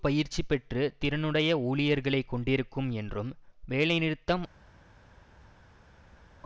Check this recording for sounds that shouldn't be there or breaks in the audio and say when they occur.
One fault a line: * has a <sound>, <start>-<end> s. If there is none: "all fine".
all fine